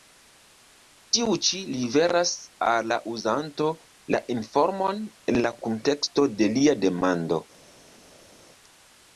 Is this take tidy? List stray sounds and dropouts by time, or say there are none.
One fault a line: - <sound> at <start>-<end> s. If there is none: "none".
none